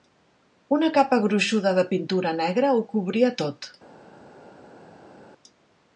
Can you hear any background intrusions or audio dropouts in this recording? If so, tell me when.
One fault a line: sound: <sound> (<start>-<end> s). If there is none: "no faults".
no faults